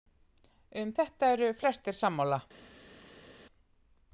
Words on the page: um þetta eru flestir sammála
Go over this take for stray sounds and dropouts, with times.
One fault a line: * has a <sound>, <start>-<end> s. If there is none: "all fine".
all fine